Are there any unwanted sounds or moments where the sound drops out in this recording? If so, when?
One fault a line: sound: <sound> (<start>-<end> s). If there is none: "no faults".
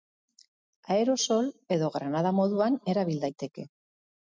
no faults